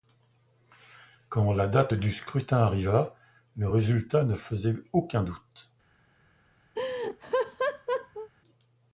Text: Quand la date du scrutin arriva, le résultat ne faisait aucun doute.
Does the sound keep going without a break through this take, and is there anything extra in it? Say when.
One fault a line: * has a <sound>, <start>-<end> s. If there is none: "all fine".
* has a laugh, 6.7-8.3 s